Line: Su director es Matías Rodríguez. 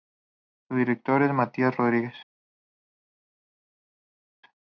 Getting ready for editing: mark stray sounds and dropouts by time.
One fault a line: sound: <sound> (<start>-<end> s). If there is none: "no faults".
no faults